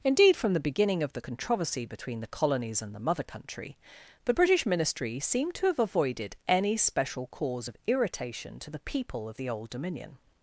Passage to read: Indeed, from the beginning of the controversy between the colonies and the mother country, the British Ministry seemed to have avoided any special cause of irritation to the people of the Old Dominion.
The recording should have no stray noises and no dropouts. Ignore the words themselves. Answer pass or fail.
pass